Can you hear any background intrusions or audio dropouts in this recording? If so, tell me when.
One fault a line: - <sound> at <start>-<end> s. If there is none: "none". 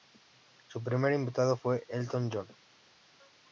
none